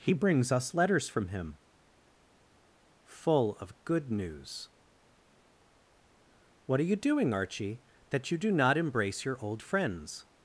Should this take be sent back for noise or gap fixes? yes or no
no